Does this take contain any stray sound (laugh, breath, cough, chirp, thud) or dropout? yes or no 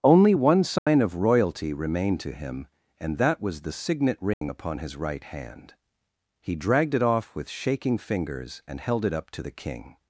yes